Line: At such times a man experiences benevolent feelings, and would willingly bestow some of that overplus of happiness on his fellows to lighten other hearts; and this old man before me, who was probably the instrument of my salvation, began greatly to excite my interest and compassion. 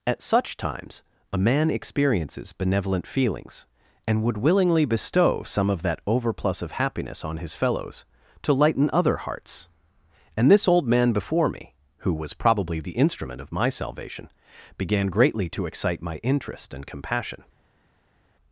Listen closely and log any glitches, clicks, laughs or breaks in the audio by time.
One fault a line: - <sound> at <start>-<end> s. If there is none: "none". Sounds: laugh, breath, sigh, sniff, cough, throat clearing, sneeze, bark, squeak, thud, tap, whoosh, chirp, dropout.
none